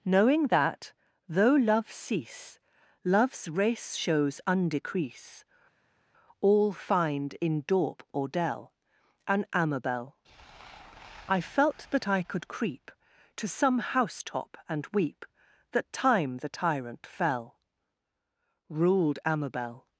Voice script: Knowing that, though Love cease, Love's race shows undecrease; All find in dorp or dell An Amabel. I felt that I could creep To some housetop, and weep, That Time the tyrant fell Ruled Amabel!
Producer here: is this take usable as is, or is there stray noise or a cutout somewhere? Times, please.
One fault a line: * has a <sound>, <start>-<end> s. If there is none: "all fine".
all fine